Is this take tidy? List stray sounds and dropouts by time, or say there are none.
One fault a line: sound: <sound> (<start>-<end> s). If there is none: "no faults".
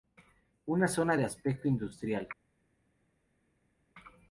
no faults